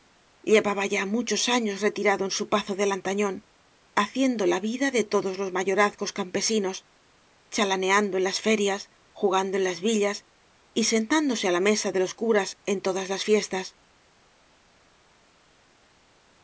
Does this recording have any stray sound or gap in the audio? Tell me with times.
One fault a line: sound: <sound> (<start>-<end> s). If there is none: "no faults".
no faults